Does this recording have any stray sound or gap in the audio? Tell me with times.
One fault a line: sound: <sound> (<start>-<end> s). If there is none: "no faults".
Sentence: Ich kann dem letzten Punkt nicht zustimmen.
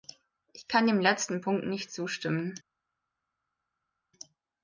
no faults